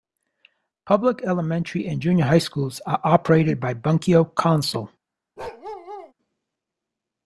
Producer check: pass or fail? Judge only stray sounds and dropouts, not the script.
fail